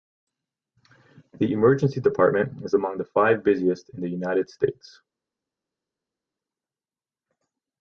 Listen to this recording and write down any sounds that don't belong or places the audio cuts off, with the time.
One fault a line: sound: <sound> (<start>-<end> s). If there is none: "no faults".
no faults